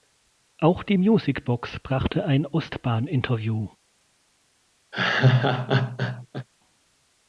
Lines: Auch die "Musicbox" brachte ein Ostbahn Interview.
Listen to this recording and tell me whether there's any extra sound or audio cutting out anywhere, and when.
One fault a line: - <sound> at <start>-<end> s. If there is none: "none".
- laugh at 4.9-6.5 s